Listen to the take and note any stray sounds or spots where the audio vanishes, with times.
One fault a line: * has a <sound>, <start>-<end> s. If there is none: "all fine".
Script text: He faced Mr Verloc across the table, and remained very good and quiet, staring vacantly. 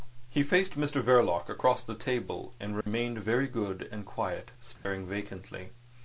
* has a dropout, 2.8-2.9 s
* has a dropout, 4.8-4.8 s